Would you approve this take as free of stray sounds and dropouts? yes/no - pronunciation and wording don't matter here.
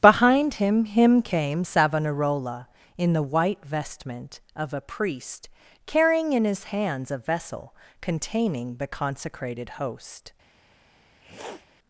no